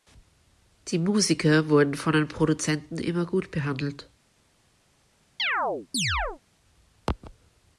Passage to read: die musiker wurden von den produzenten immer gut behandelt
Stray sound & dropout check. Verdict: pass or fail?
fail